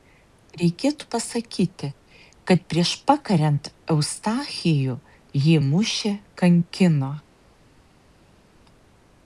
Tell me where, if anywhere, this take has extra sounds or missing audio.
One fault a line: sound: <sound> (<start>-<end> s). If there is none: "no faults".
no faults